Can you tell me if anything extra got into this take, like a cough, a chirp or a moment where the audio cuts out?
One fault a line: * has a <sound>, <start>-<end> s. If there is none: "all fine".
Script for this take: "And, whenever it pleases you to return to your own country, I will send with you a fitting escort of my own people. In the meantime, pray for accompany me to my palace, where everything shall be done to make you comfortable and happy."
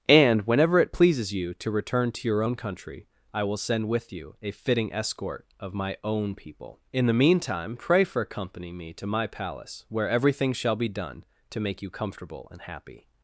all fine